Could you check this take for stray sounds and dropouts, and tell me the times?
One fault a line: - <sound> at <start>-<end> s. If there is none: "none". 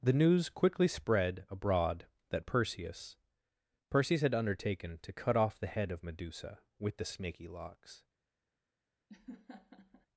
- laugh at 9.1-10.1 s